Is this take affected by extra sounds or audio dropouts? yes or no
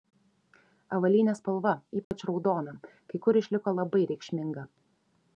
yes